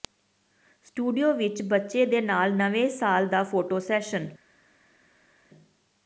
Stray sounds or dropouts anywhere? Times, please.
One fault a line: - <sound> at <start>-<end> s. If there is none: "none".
none